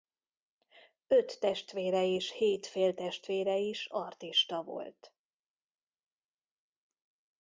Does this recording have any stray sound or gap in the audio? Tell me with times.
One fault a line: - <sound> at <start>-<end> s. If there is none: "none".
none